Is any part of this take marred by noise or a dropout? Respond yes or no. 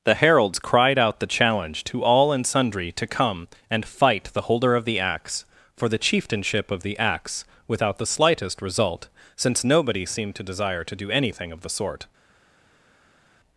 no